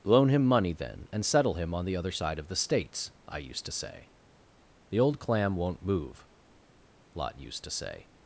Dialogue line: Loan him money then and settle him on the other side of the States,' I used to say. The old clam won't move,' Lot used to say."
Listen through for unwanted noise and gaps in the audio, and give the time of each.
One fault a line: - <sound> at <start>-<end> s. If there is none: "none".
none